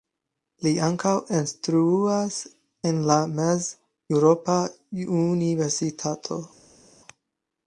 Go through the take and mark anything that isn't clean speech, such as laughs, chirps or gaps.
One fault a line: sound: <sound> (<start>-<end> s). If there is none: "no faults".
no faults